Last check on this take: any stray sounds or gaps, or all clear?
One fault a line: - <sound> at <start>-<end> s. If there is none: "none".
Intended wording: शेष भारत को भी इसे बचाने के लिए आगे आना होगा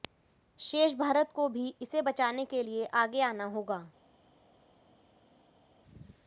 none